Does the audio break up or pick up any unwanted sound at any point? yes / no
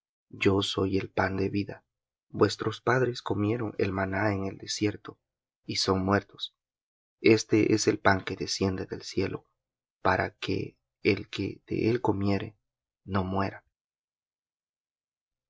no